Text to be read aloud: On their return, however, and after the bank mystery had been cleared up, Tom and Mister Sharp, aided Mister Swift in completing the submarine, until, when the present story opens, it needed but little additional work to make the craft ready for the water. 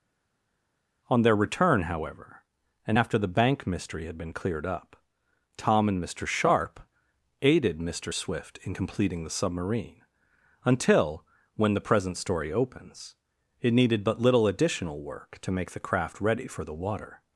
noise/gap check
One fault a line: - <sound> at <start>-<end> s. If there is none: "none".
none